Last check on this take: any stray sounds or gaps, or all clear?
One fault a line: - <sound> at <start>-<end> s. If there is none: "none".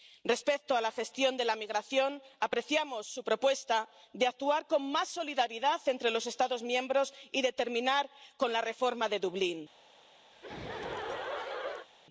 - laugh at 10.3-11.9 s